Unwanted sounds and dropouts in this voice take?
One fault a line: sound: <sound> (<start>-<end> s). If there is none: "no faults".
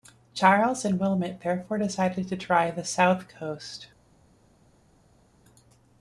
no faults